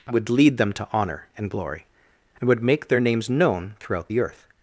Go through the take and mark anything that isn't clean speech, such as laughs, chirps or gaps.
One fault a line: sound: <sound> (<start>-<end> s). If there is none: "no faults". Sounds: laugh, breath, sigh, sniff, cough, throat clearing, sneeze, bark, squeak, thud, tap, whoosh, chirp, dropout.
no faults